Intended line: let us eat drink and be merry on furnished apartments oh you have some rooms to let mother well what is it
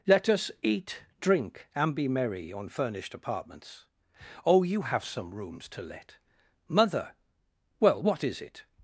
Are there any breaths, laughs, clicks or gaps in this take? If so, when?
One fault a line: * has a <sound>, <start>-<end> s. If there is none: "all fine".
all fine